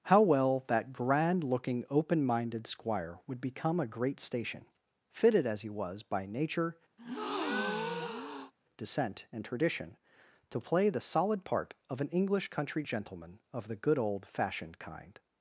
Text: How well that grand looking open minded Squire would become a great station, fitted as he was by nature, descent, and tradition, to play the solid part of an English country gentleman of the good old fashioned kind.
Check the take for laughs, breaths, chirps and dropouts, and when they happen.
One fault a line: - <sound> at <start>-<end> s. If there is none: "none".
- breath at 7.0-8.5 s